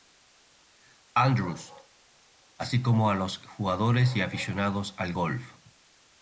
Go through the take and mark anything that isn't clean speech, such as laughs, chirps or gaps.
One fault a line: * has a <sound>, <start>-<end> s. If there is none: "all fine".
all fine